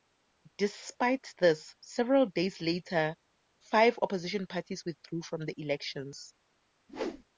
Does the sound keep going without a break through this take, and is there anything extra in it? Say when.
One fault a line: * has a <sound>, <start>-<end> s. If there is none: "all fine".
* has a whoosh, 6.9-7.2 s